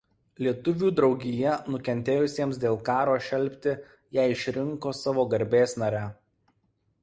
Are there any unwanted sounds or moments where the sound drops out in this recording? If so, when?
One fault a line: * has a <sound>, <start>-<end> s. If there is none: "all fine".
all fine